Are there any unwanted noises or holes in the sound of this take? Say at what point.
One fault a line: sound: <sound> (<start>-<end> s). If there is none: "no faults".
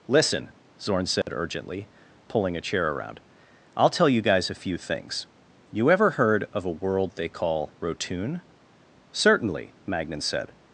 sound: dropout (1.2-1.3 s)